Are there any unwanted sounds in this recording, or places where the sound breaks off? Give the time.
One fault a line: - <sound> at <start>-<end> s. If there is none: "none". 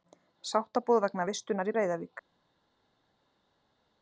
none